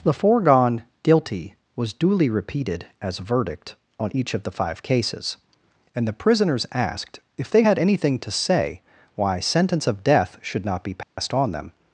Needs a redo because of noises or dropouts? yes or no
yes